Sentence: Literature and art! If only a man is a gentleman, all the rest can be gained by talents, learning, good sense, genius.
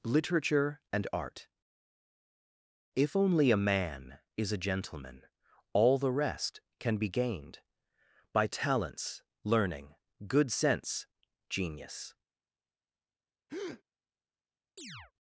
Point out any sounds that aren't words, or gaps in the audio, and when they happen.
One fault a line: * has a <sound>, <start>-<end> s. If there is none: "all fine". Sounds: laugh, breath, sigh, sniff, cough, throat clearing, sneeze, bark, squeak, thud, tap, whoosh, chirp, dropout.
* has a breath, 13.5-13.8 s
* has a chirp, 14.8-15.1 s